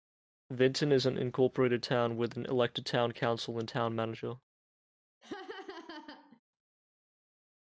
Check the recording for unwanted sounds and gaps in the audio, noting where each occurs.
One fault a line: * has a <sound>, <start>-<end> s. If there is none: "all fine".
* has a laugh, 5.2-6.4 s